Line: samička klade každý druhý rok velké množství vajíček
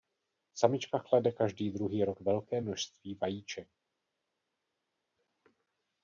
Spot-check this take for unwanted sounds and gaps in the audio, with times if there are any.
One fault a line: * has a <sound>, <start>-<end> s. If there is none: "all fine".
all fine